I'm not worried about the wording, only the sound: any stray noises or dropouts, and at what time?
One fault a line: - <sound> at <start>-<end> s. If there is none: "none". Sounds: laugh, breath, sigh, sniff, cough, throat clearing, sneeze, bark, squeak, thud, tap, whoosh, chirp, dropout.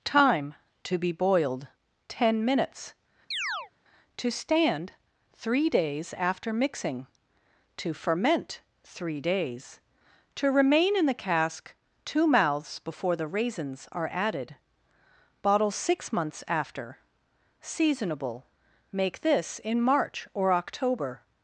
- chirp at 3.3-3.7 s